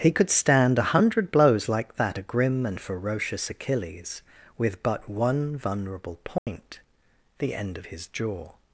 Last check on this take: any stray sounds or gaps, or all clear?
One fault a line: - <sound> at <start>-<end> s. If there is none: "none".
- dropout at 6.4-6.5 s